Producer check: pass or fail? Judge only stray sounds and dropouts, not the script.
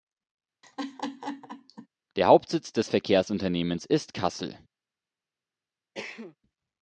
fail